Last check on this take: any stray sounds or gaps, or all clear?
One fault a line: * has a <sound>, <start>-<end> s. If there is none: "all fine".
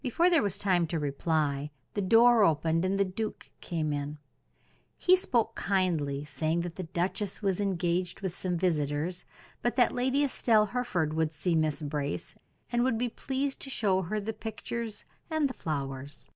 all fine